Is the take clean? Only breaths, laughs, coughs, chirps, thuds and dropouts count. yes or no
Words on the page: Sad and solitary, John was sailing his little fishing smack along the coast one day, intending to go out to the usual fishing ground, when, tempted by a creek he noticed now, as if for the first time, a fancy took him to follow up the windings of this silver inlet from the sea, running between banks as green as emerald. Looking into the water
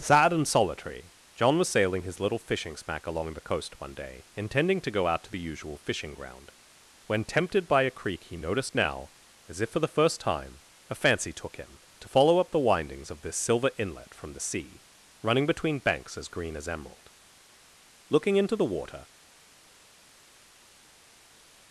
yes